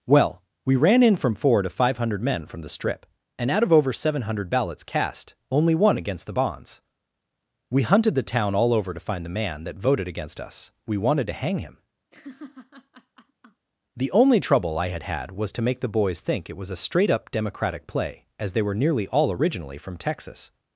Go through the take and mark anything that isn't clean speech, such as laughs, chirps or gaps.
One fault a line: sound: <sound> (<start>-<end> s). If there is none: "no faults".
sound: laugh (12.1-13.7 s)